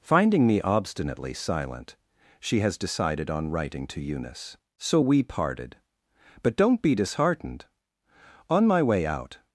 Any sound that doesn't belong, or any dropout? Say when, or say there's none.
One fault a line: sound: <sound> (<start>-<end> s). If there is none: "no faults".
no faults